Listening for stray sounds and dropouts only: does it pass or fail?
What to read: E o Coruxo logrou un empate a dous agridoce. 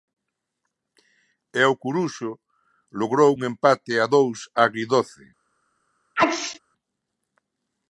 fail